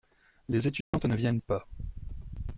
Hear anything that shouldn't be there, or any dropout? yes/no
yes